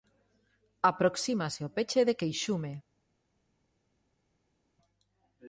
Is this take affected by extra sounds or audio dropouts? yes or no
no